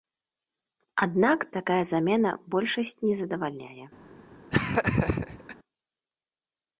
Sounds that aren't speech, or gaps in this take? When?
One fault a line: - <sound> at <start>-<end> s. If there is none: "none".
- laugh at 4.5-5.6 s